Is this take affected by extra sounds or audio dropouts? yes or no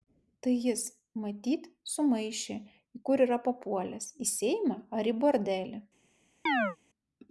yes